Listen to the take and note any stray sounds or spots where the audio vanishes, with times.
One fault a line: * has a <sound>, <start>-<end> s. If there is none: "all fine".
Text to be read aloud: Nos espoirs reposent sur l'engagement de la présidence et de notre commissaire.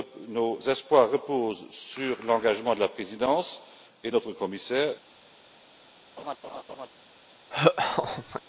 * has a laugh, 6.2-6.9 s
* has a laugh, 7.5-8.4 s